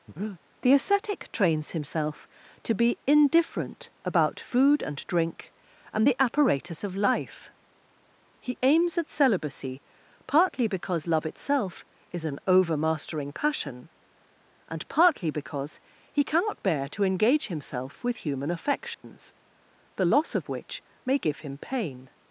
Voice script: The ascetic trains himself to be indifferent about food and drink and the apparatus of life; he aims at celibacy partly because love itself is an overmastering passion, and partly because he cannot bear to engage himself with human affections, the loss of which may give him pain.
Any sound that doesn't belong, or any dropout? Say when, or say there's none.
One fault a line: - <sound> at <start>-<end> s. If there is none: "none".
- breath at 0.1-0.4 s
- dropout at 18.9-19.0 s